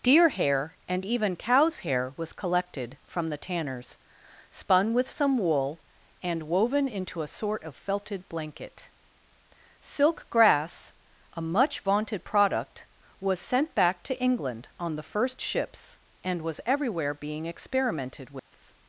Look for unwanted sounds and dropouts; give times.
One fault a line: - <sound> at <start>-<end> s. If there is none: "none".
- dropout at 18.4-18.5 s